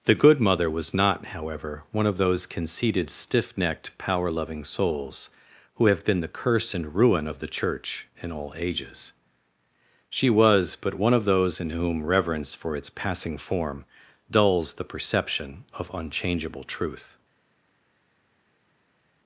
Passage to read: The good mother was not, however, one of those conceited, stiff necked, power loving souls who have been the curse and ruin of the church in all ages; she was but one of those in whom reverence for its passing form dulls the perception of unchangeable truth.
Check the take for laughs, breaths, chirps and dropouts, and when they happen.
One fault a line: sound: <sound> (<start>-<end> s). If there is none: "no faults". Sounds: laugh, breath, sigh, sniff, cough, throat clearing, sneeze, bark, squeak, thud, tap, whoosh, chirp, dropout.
no faults